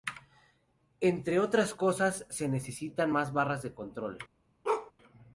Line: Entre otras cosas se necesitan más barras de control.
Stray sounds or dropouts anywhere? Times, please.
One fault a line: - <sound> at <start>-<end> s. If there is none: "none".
- bark at 4.6-4.9 s